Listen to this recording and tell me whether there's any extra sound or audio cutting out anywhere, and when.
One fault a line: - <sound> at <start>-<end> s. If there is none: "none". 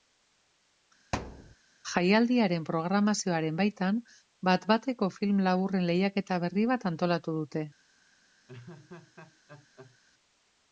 - thud at 1.1-1.6 s
- laugh at 8.5-10.0 s